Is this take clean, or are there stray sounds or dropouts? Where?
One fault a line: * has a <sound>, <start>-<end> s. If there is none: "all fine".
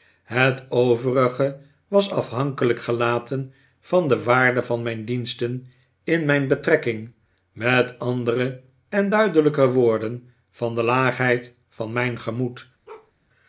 * has a bark, 12.9-13.1 s